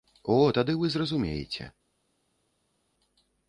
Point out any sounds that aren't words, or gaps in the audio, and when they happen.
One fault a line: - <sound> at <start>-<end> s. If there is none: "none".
none